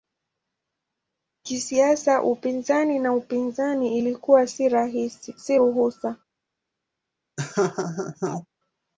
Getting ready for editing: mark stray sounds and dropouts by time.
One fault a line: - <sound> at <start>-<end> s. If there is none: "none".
- laugh at 7.4-8.5 s